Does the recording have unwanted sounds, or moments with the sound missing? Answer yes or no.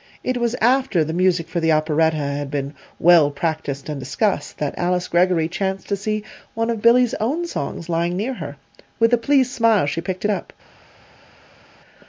no